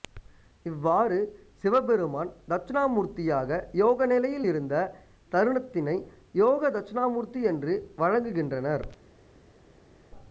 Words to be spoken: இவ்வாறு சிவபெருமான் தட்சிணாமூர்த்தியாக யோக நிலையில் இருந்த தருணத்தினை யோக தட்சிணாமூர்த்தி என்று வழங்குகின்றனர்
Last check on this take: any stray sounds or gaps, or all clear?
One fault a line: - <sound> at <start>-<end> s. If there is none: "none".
none